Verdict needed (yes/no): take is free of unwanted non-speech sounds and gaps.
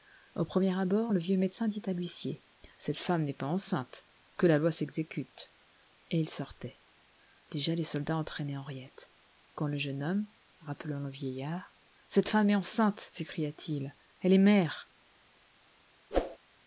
no